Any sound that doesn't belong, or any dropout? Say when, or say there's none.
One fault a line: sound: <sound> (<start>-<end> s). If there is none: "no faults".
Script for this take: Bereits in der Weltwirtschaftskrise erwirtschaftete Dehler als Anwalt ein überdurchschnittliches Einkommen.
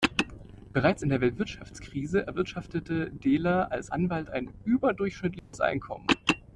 sound: dropout (5.4-5.5 s)